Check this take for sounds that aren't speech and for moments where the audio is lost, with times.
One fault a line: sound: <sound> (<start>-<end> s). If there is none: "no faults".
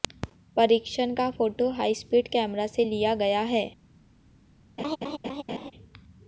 sound: laugh (4.8-5.7 s)